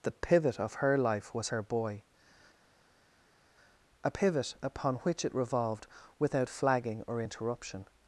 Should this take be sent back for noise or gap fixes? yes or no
no